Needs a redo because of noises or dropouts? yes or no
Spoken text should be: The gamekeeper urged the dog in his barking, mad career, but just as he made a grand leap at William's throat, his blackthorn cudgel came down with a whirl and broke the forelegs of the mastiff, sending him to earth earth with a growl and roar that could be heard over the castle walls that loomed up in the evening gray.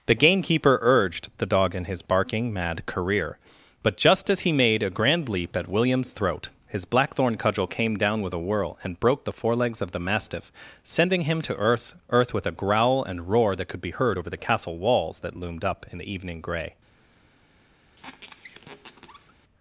yes